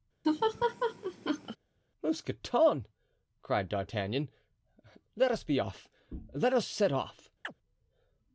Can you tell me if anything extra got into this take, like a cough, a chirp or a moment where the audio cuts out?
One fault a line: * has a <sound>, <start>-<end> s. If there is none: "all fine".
* has a laugh, 0.2-1.6 s
* has a chirp, 7.4-7.6 s